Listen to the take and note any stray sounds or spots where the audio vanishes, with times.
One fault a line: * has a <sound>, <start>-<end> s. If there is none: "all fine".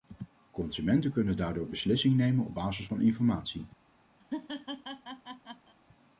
* has a laugh, 4.2-5.7 s